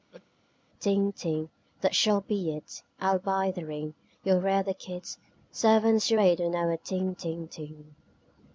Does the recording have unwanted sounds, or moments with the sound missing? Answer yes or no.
yes